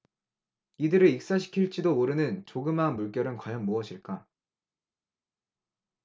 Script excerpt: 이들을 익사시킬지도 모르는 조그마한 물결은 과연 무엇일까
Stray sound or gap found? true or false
false